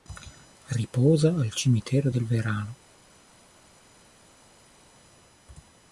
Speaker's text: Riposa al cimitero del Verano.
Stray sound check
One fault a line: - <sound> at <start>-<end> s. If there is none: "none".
none